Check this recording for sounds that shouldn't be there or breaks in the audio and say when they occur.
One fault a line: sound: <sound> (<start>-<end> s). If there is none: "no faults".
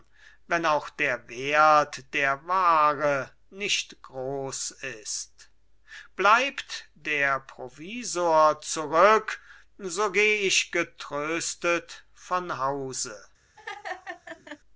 sound: laugh (13.6-14.6 s)